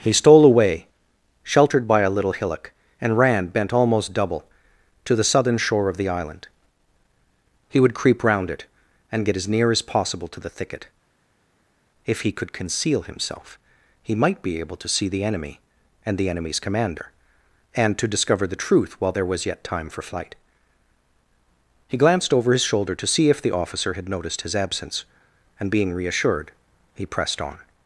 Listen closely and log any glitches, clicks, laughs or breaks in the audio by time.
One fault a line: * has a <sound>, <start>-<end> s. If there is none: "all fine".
all fine